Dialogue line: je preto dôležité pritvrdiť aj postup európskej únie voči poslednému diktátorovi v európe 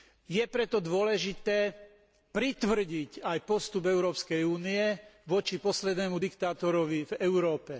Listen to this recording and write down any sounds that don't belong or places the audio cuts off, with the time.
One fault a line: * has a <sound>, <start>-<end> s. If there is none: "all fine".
all fine